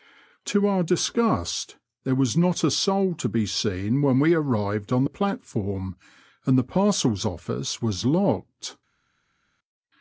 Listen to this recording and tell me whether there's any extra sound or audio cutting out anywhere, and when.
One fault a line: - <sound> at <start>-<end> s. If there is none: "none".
none